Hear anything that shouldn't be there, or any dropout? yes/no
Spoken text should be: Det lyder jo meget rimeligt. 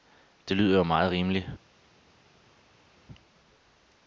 no